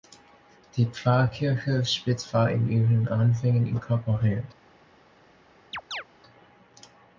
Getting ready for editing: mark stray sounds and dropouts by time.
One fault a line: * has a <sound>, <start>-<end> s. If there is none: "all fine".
* has a chirp, 5.7-6.0 s